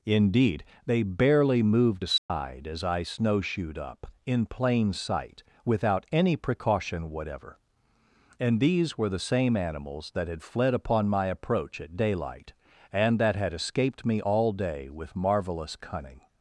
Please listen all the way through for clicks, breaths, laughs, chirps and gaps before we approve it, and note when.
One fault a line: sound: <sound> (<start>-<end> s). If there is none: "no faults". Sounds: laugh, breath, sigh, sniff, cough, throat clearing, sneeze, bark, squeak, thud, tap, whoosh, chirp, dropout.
sound: dropout (2.2-2.3 s)